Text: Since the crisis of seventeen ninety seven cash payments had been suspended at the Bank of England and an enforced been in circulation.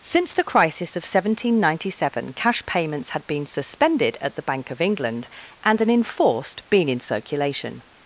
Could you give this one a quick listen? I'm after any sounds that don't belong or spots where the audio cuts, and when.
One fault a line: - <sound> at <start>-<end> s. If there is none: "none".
none